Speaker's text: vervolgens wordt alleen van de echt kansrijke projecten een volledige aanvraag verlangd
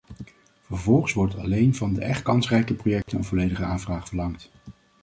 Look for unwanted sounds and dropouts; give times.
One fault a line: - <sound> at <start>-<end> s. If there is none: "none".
- dropout at 3.0-3.1 s